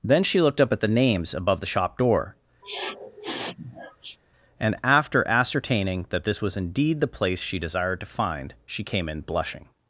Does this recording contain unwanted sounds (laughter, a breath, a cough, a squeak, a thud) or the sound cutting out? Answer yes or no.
yes